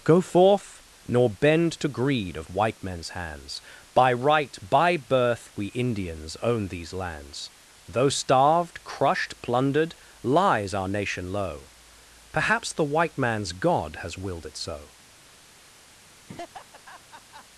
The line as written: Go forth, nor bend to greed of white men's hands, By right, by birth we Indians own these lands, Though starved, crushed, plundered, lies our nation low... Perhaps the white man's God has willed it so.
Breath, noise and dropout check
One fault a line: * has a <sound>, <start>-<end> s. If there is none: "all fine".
* has a laugh, 16.1-17.4 s